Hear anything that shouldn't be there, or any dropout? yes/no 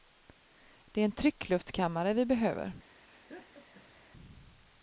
yes